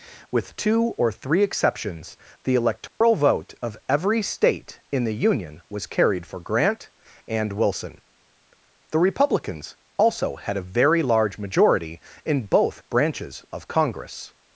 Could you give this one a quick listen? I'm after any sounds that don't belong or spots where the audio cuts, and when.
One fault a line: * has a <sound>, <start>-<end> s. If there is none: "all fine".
* has a dropout, 2.9-3.0 s